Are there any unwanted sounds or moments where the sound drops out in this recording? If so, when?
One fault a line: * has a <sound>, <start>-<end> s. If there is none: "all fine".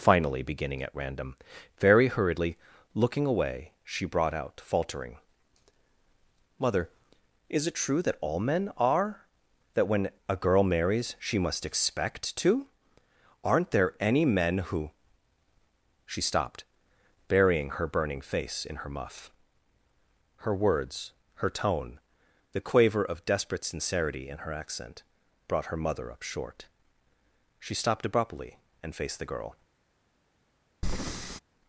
* has a breath, 30.8-31.4 s